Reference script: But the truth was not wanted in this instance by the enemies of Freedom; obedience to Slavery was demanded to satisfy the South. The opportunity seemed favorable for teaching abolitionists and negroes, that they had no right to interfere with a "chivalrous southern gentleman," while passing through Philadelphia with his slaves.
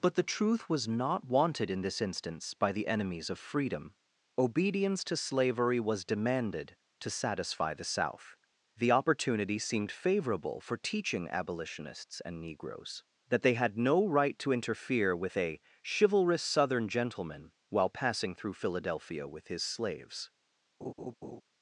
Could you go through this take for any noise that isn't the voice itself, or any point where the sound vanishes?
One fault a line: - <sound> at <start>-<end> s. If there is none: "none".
- laugh at 20.8-21.4 s